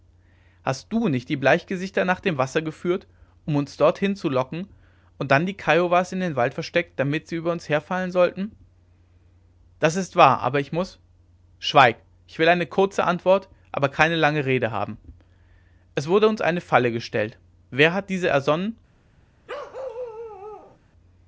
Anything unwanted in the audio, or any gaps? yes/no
yes